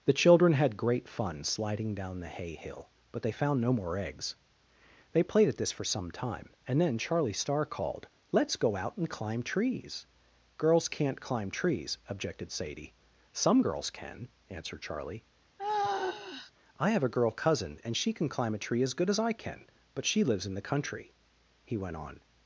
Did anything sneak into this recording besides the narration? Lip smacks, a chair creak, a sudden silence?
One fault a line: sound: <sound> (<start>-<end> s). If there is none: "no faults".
sound: sigh (15.6-16.5 s)